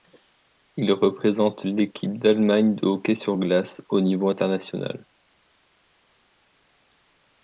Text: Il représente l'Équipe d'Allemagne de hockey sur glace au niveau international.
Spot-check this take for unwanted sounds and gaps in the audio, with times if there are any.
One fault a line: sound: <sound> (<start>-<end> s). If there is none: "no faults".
no faults